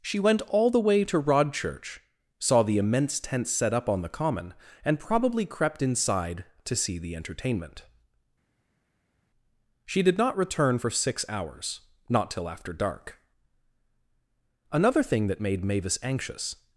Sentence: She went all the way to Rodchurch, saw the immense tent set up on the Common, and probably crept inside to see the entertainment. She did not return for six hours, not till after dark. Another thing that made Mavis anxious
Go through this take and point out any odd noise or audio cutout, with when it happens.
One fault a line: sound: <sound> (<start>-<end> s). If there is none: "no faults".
no faults